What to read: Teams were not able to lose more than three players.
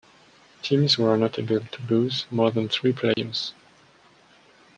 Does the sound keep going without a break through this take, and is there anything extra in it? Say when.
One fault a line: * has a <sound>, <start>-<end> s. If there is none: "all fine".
* has a dropout, 3.1-3.2 s